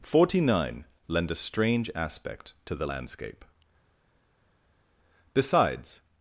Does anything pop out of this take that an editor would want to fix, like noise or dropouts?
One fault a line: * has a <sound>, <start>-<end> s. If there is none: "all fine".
all fine